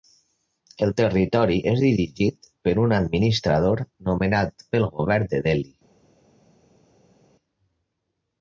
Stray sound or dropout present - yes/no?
no